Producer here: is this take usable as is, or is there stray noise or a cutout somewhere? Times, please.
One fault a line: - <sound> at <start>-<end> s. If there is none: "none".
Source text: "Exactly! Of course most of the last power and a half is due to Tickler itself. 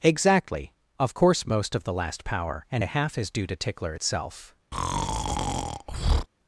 - breath at 4.7-6.3 s